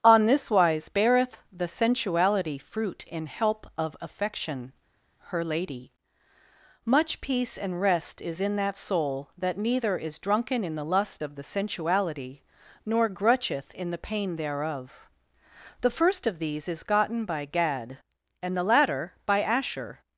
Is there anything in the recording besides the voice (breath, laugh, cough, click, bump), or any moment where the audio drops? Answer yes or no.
no